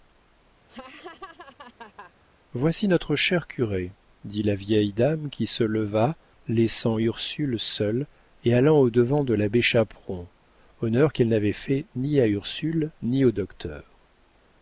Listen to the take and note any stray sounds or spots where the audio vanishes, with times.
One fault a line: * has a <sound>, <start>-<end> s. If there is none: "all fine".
* has a laugh, 0.7-2.1 s